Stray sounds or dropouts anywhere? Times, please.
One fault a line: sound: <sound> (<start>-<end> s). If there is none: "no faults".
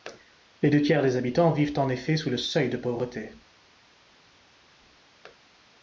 no faults